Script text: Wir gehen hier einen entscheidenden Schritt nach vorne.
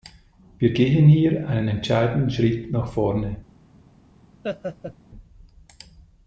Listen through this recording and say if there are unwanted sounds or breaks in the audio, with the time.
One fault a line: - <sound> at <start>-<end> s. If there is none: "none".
- laugh at 4.4-4.9 s